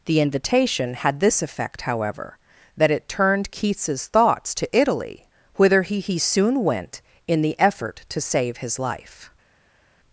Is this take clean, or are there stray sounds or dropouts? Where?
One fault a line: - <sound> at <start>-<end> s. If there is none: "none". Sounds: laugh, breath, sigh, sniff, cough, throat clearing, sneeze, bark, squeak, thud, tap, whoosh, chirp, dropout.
none